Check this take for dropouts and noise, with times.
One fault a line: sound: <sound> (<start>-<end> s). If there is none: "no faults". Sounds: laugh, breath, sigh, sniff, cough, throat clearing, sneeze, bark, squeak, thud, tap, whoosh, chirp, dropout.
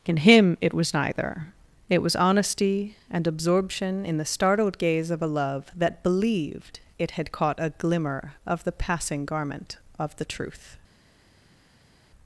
no faults